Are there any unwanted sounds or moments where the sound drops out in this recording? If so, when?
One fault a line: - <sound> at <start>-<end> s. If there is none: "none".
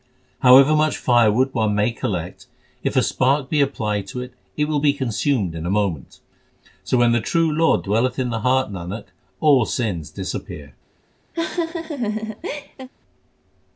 - laugh at 11.3-12.9 s